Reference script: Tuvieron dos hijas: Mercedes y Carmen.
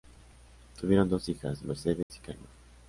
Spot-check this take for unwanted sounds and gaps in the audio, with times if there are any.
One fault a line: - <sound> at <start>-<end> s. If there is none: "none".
- dropout at 2.0-2.1 s